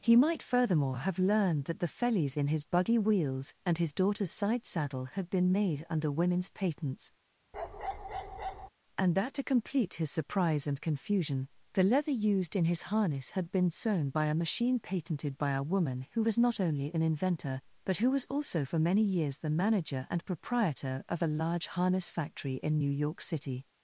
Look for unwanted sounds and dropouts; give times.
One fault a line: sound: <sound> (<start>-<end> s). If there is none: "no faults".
sound: bark (7.5-8.7 s)